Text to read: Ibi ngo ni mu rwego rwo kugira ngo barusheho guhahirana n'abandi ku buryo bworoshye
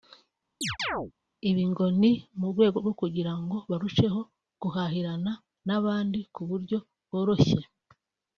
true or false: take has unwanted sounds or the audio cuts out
true